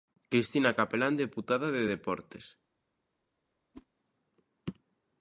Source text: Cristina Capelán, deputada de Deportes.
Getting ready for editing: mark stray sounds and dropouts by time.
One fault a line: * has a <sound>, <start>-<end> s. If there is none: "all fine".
* has a whoosh, 3.7-3.9 s